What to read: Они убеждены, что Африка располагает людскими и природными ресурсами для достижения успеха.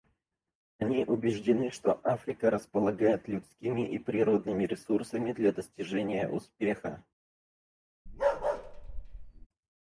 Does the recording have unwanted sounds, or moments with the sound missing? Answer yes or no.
yes